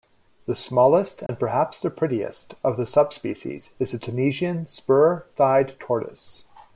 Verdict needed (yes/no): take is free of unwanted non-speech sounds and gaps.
no